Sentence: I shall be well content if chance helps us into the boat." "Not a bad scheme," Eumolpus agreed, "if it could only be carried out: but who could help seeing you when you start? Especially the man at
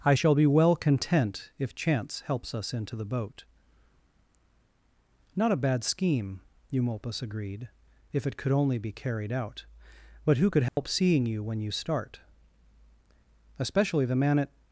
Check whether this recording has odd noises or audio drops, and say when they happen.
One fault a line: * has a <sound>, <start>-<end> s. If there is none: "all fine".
* has a dropout, 10.7-10.8 s